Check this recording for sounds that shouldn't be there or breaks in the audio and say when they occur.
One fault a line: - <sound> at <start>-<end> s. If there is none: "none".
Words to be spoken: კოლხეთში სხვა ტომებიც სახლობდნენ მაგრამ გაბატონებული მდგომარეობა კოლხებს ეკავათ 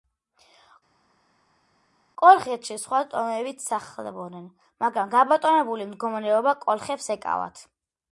none